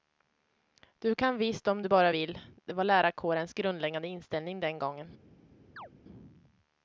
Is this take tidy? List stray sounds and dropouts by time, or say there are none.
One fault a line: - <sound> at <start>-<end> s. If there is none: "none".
- chirp at 5.8-5.9 s